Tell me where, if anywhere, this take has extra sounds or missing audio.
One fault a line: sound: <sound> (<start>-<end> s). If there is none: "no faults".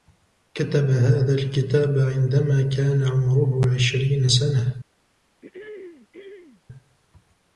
sound: throat clearing (5.4-6.6 s)